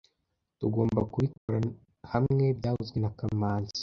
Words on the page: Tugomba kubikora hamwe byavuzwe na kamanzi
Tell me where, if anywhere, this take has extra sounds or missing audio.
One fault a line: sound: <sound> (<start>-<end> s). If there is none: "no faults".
sound: dropout (1.4-1.5 s)